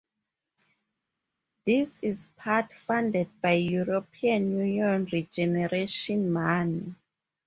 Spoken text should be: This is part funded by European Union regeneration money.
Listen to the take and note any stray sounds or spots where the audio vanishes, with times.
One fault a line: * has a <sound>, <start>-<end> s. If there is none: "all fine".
all fine